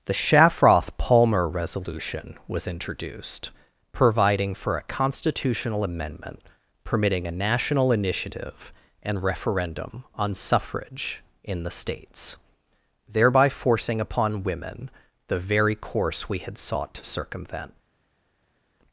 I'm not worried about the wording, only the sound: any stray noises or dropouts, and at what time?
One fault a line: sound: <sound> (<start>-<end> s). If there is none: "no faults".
no faults